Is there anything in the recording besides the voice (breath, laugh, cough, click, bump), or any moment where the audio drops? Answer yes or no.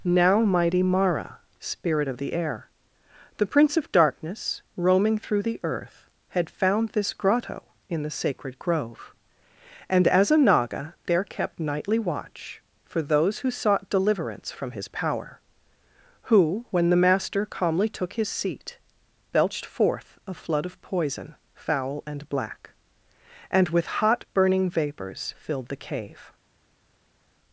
no